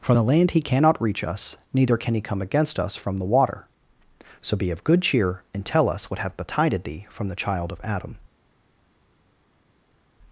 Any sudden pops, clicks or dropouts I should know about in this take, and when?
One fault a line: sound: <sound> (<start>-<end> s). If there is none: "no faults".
no faults